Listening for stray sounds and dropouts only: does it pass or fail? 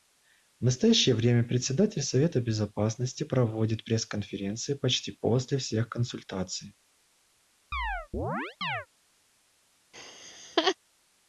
fail